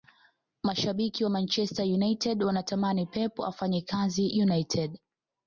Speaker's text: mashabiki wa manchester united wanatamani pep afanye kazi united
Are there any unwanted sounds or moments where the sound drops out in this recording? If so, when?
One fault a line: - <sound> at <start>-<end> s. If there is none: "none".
none